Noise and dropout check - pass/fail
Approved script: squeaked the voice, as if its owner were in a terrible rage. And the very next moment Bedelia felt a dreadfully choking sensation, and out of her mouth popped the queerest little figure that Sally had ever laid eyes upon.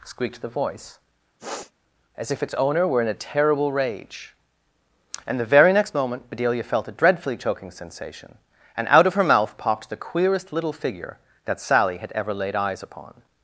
fail